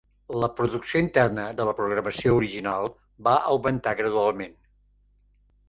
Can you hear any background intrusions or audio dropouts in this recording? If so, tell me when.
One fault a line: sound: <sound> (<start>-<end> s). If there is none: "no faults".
no faults